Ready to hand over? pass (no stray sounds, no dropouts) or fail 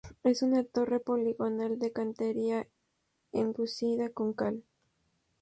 pass